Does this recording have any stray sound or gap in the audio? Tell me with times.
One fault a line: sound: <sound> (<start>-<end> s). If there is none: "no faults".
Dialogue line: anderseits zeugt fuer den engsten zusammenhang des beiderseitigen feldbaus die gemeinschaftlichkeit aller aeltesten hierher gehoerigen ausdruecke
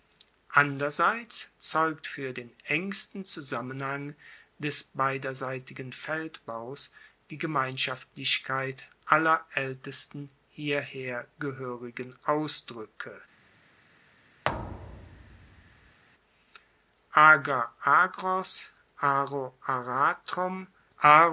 sound: thud (14.4-16.0 s)